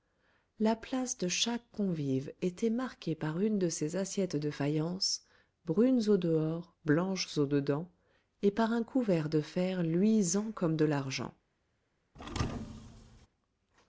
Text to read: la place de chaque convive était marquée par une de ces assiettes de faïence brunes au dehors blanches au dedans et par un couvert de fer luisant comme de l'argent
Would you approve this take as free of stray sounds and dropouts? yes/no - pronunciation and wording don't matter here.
no